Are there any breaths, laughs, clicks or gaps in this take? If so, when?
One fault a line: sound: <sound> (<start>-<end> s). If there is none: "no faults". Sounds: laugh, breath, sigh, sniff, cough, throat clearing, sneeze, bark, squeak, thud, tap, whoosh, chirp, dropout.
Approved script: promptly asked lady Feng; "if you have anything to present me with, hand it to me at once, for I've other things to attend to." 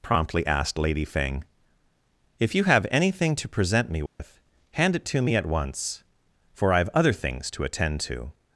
sound: dropout (4.1-4.2 s)